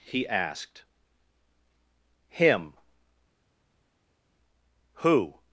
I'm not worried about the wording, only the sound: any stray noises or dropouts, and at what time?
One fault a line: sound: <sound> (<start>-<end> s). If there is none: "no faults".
no faults